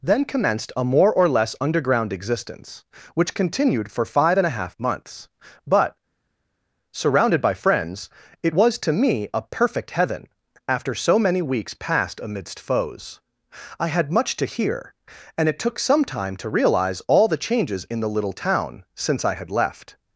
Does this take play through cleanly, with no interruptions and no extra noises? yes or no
yes